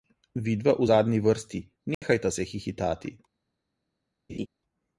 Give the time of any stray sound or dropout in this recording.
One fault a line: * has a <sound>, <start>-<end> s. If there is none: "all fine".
* has a dropout, 1.9-2.0 s
* has a laugh, 4.3-4.5 s